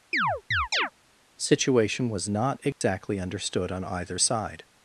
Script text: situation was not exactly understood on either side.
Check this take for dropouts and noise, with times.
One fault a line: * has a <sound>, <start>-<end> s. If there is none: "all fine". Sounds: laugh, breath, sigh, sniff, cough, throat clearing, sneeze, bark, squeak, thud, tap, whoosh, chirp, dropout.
* has a chirp, 0.1-0.9 s
* has a dropout, 2.7-2.8 s